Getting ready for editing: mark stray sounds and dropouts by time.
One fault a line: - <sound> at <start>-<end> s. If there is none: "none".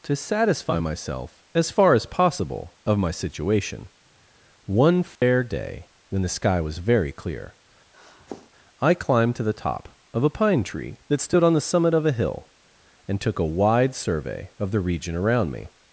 - dropout at 5.2-5.2 s
- sniff at 7.9-8.5 s